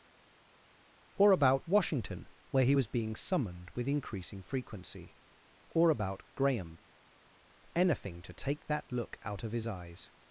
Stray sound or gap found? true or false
false